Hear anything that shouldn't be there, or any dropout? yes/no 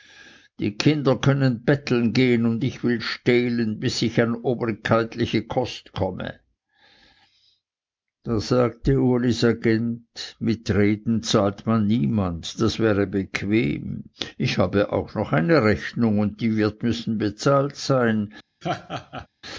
yes